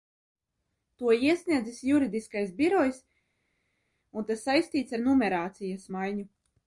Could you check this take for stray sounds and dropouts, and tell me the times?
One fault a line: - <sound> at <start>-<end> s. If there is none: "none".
none